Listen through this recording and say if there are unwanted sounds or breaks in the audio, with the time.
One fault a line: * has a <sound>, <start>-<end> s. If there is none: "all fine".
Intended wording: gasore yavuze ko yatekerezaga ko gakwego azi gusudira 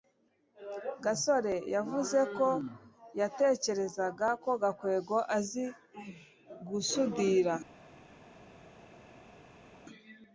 all fine